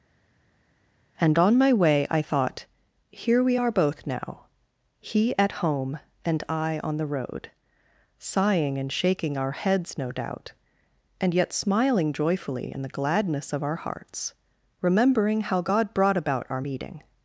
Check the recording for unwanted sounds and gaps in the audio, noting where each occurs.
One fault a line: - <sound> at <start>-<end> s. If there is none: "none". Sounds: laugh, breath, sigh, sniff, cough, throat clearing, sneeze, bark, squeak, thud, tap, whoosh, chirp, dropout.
none